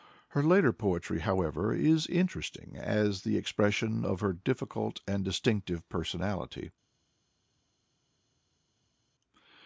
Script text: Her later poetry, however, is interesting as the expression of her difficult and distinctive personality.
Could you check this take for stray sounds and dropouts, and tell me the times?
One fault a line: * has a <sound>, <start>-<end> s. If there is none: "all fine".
all fine